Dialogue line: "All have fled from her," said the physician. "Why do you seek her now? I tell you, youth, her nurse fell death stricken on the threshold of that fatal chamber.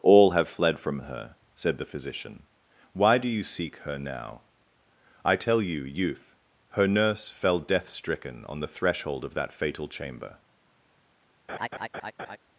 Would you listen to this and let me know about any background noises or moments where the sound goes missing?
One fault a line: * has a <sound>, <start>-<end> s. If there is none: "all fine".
* has a laugh, 11.5-12.4 s